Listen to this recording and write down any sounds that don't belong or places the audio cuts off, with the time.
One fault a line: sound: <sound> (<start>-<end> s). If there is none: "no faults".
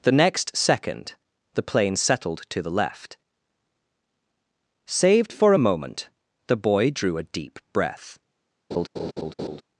sound: laugh (8.7-9.6 s)